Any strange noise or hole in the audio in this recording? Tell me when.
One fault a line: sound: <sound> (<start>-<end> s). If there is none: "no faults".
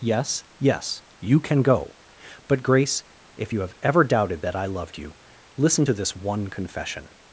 no faults